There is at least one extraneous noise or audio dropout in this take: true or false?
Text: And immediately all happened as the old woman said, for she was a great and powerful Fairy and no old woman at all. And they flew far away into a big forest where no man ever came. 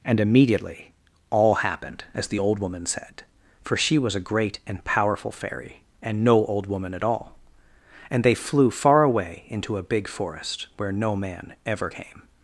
false